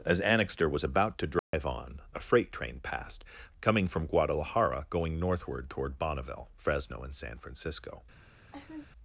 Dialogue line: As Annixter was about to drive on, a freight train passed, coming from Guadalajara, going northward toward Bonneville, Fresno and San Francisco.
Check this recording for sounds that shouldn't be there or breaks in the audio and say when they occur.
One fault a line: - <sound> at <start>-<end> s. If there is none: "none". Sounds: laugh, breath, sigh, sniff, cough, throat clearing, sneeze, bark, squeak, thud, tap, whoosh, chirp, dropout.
- dropout at 1.4-1.5 s
- laugh at 8.5-8.9 s